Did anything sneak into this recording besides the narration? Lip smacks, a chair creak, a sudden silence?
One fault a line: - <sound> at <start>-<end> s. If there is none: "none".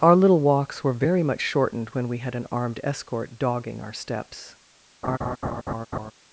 - laugh at 5.0-6.1 s